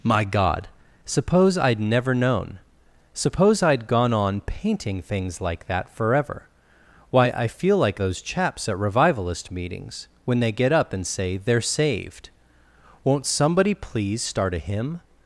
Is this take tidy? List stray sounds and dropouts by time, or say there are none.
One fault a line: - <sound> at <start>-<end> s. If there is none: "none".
none